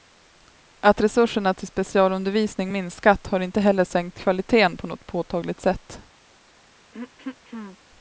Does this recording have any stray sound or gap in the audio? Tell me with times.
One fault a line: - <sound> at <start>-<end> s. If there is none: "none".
- throat clearing at 6.9-7.8 s